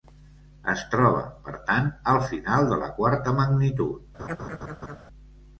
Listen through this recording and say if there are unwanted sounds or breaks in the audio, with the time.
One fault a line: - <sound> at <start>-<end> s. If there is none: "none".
- laugh at 4.2-5.0 s